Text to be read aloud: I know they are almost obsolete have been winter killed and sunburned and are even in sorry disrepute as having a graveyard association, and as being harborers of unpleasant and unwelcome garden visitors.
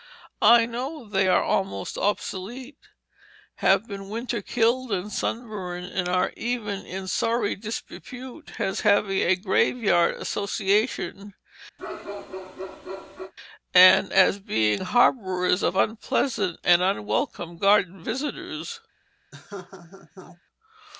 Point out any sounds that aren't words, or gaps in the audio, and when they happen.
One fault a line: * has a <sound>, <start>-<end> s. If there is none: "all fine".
* has a bark, 11.8-13.3 s
* has a laugh, 19.3-20.4 s